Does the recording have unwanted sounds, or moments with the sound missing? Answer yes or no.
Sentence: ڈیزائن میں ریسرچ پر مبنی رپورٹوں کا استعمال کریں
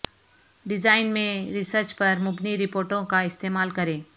no